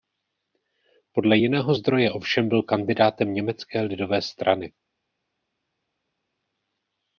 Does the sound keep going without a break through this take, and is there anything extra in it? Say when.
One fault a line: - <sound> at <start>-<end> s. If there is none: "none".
none